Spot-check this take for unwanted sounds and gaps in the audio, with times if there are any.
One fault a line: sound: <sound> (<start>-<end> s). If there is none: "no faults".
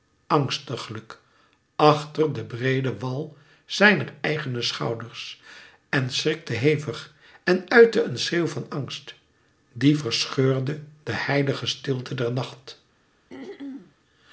sound: throat clearing (13.3-14.0 s)